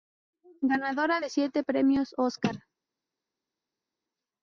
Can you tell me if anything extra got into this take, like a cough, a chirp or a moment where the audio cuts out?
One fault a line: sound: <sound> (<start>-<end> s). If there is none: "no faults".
no faults